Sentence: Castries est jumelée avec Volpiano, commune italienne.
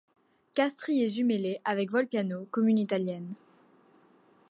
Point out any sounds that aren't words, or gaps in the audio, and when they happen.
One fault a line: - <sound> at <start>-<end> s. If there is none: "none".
none